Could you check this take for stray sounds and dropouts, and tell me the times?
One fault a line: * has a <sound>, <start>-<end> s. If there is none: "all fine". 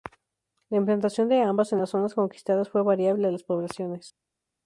all fine